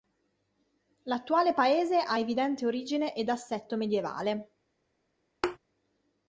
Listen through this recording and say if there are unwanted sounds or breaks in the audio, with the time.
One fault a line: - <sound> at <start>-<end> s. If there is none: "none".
- thud at 5.4-5.6 s